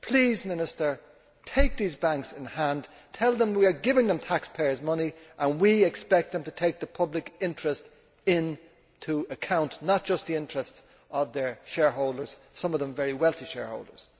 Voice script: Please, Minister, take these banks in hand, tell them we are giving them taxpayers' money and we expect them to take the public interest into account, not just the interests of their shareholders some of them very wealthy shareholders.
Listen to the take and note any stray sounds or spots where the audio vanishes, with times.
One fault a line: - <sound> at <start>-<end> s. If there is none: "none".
none